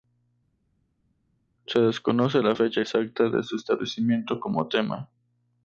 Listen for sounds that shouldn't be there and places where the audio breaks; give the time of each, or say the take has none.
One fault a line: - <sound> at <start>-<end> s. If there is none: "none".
none